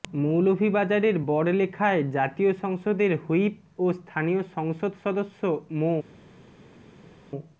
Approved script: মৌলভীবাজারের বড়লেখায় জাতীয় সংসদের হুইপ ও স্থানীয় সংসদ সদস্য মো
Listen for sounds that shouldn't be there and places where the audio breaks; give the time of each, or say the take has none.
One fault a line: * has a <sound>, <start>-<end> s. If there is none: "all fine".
all fine